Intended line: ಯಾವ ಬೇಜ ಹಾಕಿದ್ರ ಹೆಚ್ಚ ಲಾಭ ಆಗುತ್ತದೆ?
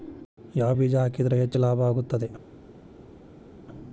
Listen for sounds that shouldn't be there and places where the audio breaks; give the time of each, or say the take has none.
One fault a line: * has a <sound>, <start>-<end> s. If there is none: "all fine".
all fine